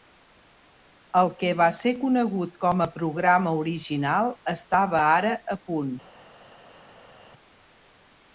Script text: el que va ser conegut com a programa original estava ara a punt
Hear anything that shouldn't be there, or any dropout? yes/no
no